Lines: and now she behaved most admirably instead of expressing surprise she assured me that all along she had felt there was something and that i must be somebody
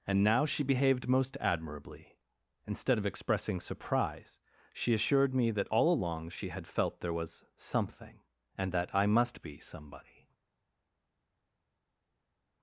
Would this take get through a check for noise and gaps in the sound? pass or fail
pass